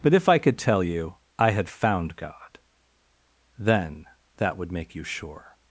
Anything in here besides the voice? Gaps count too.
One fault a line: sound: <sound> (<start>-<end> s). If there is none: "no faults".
no faults